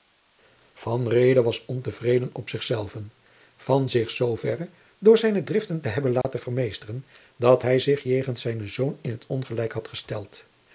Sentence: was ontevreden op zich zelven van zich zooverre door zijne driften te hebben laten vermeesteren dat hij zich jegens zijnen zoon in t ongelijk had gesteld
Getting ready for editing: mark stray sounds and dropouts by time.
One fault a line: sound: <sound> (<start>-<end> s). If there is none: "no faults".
sound: dropout (6.2-6.2 s)